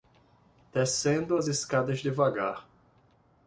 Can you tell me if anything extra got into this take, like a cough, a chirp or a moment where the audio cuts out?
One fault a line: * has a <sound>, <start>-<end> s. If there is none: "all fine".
all fine